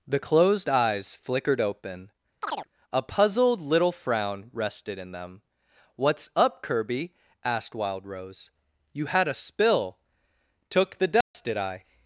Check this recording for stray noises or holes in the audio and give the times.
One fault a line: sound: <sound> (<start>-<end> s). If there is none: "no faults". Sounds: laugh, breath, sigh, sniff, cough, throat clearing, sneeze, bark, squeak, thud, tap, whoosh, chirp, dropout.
sound: chirp (2.4-2.7 s)
sound: dropout (11.2-11.3 s)